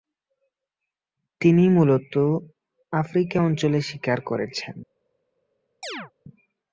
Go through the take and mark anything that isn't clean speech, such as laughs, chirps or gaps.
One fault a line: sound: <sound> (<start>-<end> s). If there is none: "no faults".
sound: chirp (5.8-6.1 s)